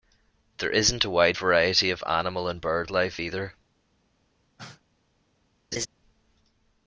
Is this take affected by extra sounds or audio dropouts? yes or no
yes